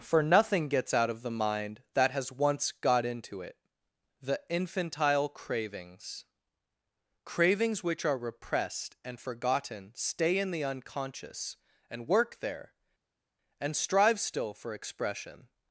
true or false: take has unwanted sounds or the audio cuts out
false